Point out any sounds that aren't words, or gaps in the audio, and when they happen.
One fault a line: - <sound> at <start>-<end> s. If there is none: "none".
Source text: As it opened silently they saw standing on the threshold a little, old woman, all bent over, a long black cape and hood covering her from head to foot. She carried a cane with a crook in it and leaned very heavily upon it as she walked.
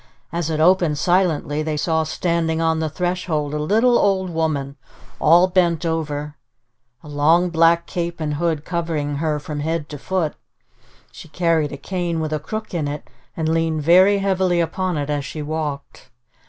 none